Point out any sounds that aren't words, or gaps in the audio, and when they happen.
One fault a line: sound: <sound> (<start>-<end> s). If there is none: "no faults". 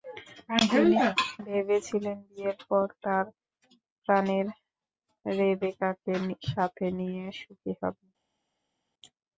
no faults